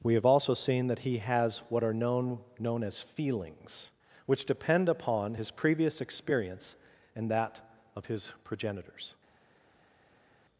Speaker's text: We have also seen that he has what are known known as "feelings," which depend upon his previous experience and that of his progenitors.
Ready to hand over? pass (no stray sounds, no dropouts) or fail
pass